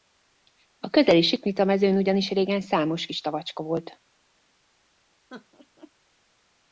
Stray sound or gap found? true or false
true